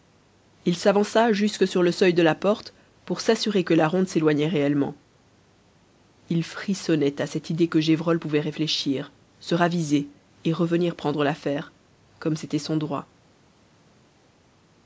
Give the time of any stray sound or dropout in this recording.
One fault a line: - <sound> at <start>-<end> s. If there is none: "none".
none